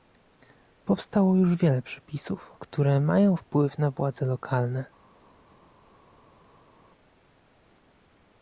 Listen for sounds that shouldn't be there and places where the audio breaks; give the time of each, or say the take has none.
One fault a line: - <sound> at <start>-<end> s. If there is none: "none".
none